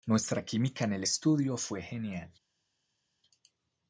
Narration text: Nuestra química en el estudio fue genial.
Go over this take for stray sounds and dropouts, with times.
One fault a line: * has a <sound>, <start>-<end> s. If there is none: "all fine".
all fine